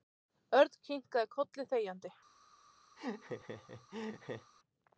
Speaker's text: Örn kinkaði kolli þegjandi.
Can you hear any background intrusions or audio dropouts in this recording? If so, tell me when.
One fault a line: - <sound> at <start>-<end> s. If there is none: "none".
- laugh at 3.0-4.5 s